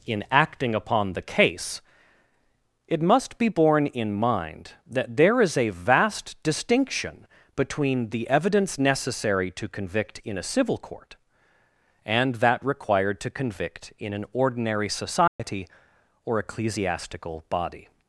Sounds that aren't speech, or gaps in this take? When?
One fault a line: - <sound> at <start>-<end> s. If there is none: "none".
- dropout at 15.3-15.4 s